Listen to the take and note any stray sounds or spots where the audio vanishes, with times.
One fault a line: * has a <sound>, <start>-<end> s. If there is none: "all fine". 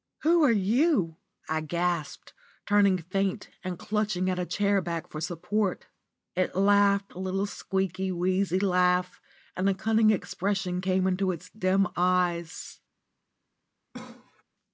* has a cough, 13.9-14.4 s